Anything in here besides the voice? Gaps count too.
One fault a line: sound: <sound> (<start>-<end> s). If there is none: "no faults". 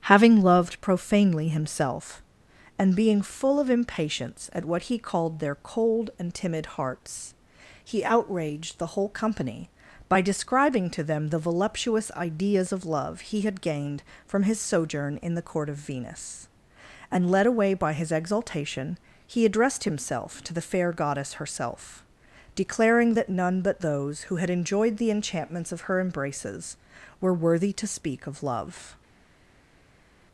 no faults